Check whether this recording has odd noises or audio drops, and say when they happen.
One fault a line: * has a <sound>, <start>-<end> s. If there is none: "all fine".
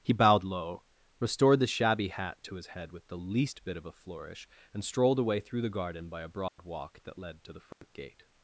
* has a dropout, 6.5-6.6 s
* has a dropout, 7.7-7.8 s